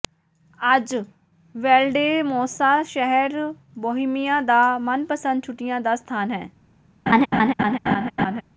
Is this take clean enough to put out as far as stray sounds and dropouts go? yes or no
no